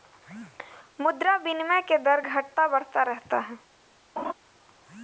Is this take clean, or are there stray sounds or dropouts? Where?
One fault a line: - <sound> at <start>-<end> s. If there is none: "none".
- laugh at 4.2-4.3 s